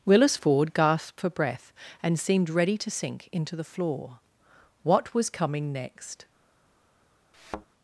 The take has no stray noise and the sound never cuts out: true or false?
false